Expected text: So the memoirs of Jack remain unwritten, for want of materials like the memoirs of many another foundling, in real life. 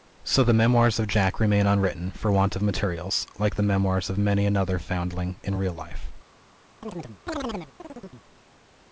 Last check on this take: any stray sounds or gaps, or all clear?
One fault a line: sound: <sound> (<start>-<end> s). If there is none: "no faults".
sound: chirp (6.8-8.3 s)